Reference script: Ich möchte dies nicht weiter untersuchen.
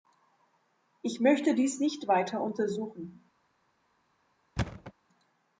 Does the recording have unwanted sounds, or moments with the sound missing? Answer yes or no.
yes